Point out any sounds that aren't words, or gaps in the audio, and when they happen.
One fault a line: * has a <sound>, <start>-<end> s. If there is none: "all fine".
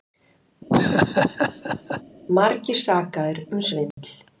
* has a laugh, 0.7-2.0 s
* has a dropout, 3.9-4.0 s